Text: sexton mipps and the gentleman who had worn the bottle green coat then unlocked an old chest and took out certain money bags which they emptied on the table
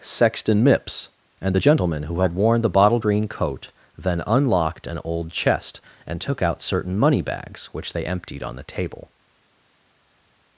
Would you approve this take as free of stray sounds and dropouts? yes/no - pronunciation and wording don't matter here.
yes